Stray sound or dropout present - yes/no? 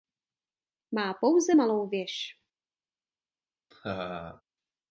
yes